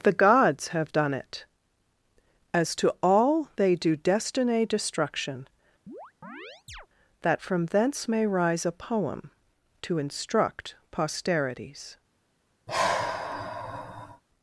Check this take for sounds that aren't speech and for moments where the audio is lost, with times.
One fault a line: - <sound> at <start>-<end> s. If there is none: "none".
- chirp at 5.9-6.9 s
- sigh at 12.7-14.2 s